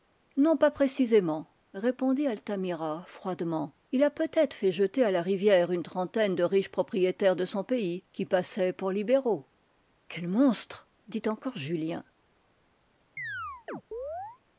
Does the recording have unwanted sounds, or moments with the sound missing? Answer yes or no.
yes